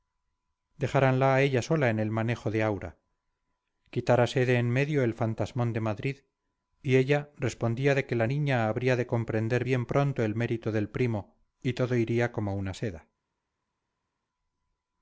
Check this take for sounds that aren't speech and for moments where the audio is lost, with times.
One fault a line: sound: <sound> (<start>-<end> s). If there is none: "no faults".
no faults